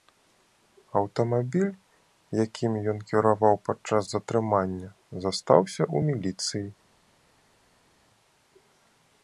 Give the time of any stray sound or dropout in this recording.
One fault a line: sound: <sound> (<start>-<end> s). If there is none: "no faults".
no faults